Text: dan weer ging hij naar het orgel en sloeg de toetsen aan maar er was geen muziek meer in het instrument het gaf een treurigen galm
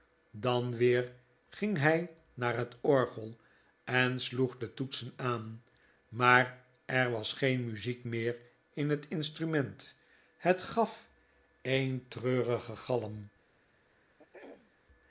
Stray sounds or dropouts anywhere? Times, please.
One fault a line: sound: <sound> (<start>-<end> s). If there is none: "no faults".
sound: throat clearing (14.2-14.7 s)